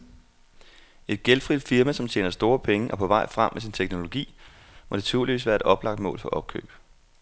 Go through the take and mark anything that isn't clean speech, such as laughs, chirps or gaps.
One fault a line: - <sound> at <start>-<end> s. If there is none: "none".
none